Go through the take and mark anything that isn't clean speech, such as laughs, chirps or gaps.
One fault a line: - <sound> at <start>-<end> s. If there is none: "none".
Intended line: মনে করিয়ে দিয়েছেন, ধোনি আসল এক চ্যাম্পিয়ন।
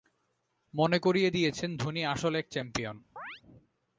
- chirp at 3.2-3.4 s